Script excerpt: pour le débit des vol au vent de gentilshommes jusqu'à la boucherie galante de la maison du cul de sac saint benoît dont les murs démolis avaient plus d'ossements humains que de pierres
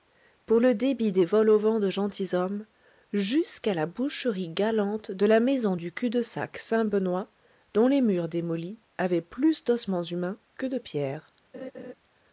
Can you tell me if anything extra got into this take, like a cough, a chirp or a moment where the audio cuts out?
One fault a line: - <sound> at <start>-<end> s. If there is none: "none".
- laugh at 11.5-11.9 s